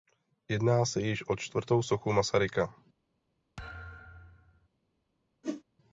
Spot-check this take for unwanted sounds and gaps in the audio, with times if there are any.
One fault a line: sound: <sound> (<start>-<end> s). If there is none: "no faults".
sound: thud (3.6-4.7 s)
sound: whoosh (5.4-5.6 s)